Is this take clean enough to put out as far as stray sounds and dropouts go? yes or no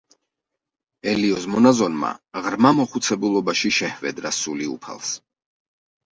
yes